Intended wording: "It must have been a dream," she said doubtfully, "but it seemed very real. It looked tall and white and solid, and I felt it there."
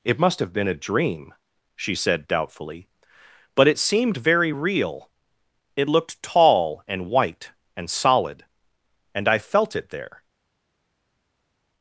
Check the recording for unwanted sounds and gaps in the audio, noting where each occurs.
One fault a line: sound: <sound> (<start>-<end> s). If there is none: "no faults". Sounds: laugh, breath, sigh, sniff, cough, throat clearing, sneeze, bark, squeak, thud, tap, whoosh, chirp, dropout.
no faults